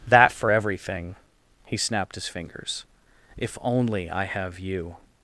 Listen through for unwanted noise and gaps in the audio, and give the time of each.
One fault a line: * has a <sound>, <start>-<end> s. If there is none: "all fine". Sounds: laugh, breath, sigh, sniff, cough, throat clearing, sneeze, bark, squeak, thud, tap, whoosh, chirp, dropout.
all fine